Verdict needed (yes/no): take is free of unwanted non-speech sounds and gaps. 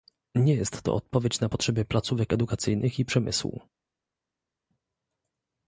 yes